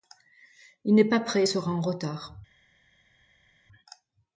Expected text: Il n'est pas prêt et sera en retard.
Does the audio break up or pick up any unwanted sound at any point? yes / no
no